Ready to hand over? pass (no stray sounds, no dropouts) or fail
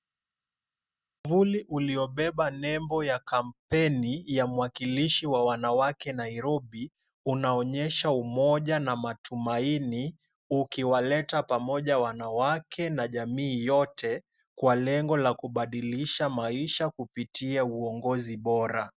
pass